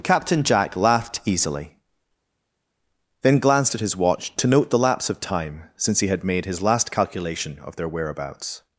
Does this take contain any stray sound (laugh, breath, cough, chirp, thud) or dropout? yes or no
no